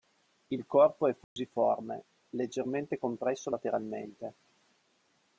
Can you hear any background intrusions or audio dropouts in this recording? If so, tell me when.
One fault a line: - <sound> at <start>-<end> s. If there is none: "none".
- dropout at 1.2-1.4 s